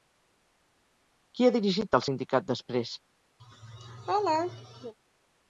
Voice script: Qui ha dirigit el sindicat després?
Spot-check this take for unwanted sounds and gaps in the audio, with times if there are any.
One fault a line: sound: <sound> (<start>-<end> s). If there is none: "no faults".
sound: laugh (3.4-4.9 s)